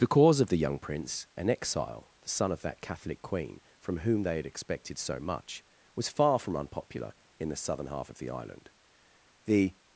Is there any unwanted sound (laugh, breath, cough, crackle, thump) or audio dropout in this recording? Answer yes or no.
no